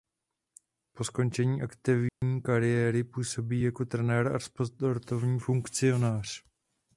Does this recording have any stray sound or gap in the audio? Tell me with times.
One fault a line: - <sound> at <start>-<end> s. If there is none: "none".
- dropout at 2.1-2.2 s